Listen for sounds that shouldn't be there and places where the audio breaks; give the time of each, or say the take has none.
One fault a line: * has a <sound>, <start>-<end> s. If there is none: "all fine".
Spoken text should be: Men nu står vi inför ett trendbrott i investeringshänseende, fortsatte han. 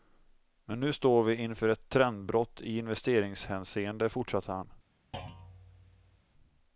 * has a thud, 5.1-6.2 s